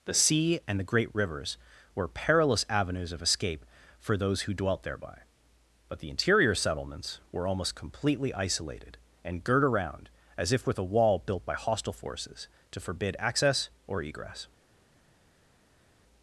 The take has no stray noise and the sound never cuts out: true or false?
true